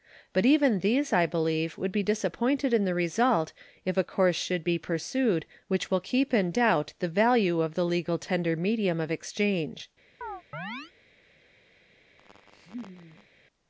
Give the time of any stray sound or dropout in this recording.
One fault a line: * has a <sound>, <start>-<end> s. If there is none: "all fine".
* has a chirp, 10.2-10.9 s
* has a laugh, 12.2-13.3 s